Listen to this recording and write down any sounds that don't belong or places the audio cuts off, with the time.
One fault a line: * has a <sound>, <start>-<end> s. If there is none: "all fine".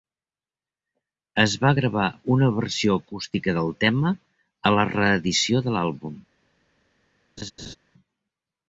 * has a laugh, 7.4-7.8 s